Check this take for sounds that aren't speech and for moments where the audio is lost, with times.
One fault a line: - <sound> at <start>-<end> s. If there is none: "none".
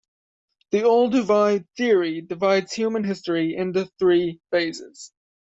none